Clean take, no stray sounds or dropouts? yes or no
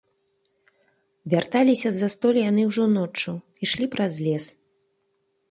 yes